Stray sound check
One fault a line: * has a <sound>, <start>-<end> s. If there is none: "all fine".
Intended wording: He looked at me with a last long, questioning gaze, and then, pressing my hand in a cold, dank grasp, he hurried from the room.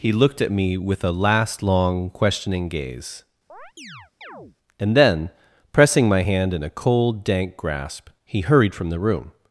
* has a chirp, 3.5-4.6 s